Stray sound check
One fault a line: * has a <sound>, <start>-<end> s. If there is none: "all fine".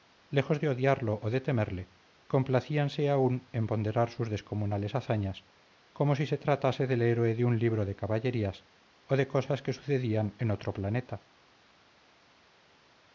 all fine